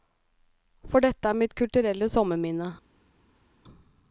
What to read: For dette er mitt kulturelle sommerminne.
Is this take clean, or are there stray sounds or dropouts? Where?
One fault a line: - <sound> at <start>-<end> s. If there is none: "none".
none